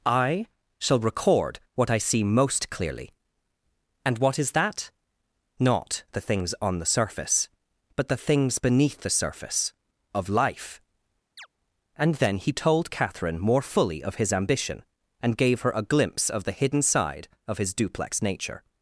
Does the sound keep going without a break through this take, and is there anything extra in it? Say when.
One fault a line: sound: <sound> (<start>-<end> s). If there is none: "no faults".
sound: chirp (11.4-11.5 s)